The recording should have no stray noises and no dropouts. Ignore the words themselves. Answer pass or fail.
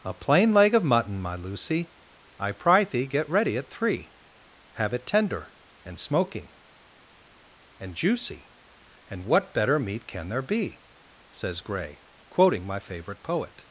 pass